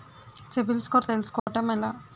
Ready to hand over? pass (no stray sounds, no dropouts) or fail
fail